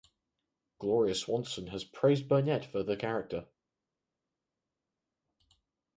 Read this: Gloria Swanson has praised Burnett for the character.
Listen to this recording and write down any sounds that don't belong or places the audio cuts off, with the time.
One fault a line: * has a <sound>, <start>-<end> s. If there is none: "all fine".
all fine